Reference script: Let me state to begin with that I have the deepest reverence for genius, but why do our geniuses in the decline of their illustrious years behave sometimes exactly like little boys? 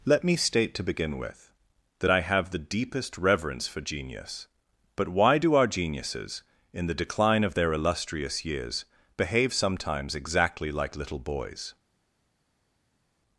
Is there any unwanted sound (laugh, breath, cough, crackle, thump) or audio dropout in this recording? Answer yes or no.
no